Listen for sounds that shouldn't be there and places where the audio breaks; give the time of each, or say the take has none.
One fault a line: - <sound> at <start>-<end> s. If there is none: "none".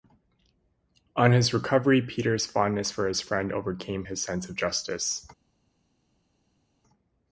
none